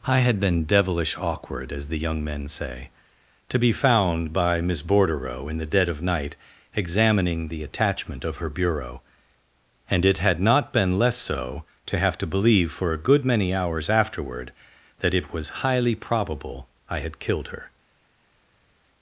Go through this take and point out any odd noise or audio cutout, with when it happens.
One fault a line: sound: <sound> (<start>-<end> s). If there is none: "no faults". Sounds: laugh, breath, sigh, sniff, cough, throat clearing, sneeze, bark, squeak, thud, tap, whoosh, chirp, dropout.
no faults